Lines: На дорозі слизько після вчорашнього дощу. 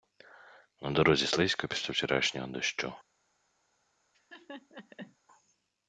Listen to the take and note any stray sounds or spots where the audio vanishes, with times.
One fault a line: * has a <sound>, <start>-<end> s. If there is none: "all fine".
* has a laugh, 4.1-5.2 s